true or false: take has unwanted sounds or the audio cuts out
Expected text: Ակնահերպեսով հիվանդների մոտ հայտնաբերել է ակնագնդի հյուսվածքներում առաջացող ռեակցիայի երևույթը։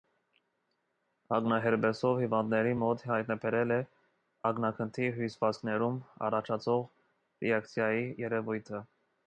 false